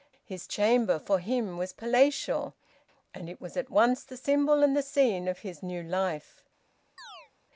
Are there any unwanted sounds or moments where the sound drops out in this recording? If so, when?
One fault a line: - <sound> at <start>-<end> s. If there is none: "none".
- chirp at 7.0-7.3 s